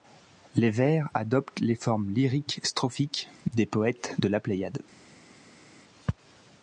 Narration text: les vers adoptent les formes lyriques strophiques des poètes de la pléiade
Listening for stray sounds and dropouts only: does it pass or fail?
pass